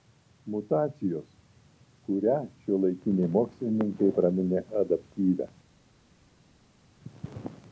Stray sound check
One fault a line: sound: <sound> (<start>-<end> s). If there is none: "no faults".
no faults